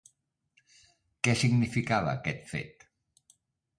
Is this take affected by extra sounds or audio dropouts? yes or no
no